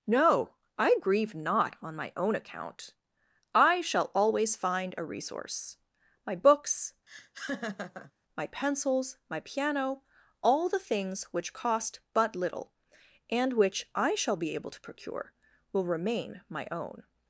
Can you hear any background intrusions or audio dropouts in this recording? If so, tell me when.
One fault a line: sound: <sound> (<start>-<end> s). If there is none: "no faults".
sound: laugh (7.1-8.1 s)